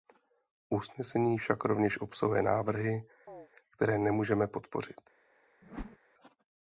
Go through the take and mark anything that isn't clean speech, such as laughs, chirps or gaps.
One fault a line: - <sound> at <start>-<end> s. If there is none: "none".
- chirp at 3.3-3.5 s
- whoosh at 5.6-6.0 s